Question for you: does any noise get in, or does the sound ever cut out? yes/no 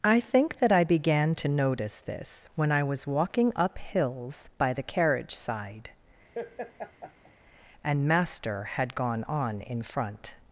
yes